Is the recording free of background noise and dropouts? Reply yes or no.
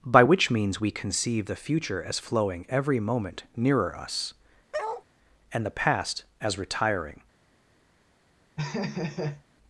no